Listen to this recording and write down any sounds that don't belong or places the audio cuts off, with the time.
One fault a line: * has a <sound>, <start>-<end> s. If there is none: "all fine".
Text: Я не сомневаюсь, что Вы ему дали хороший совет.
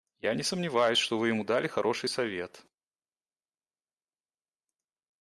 all fine